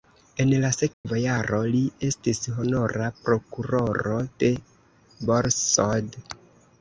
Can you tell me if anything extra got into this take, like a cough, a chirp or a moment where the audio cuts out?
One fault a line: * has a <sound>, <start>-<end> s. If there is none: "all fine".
* has a dropout, 0.9-1.0 s